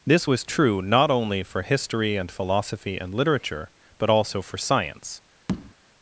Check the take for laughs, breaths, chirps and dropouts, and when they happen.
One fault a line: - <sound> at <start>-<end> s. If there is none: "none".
- tap at 5.5-5.7 s